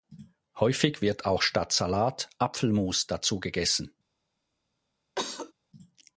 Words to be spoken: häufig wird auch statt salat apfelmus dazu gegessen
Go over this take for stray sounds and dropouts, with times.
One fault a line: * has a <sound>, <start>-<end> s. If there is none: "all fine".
* has a cough, 5.2-5.5 s